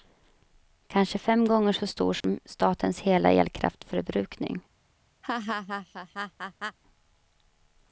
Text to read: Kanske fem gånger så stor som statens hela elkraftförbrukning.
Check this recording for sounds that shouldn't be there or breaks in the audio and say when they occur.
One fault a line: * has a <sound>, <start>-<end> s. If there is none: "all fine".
* has a dropout, 2.2-2.2 s
* has a laugh, 5.2-6.8 s